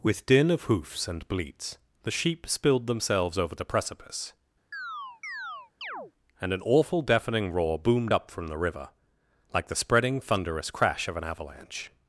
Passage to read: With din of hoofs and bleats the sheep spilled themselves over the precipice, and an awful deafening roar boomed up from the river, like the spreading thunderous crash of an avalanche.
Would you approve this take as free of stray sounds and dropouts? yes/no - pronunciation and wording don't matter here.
no